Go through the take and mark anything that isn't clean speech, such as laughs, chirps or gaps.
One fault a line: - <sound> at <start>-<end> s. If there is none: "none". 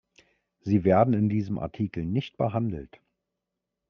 none